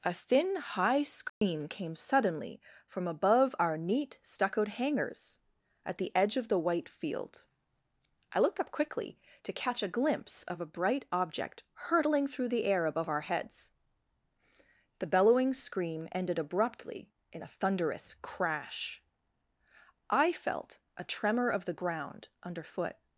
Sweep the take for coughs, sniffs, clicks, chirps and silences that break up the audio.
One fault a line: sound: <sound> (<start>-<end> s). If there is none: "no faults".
sound: dropout (1.3-1.4 s)